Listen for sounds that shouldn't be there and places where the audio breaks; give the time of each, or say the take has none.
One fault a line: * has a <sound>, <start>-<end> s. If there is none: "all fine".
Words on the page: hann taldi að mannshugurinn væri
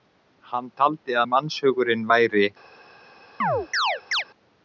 * has a chirp, 3.4-4.2 s